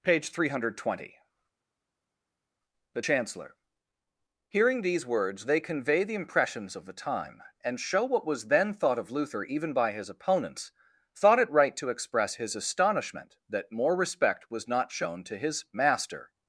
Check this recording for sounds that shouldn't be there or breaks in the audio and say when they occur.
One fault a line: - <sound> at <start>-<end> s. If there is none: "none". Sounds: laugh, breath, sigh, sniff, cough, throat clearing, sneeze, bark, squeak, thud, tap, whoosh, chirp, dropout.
none